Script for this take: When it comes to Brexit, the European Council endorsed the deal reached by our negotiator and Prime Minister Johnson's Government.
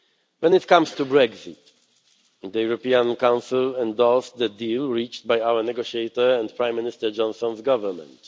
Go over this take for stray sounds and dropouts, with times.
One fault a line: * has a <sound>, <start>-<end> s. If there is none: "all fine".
all fine